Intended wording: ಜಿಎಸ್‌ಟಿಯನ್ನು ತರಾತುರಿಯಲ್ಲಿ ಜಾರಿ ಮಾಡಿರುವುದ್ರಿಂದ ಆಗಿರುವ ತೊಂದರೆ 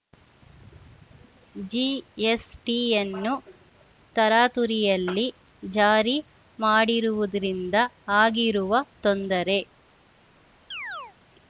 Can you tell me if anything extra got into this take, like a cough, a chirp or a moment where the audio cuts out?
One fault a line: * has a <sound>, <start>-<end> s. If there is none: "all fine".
* has a chirp, 10.7-11.2 s